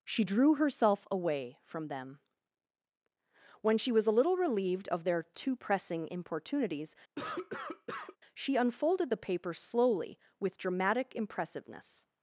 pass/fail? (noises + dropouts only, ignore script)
fail